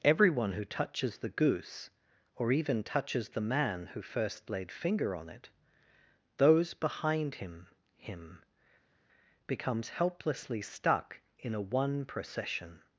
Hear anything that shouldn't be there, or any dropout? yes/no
no